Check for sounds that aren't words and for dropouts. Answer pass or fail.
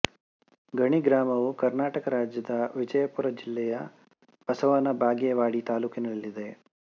pass